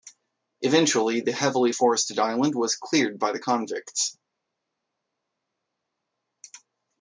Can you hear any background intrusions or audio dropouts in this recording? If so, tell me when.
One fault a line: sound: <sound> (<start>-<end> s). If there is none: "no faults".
no faults